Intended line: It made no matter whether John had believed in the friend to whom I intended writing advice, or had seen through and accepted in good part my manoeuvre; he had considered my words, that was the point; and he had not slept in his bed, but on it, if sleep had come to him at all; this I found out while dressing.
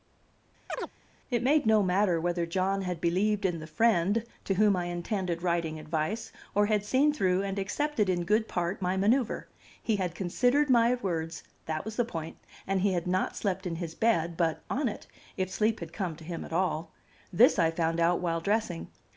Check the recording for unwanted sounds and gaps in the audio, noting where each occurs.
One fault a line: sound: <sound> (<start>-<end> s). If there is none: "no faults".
sound: chirp (0.7-0.9 s)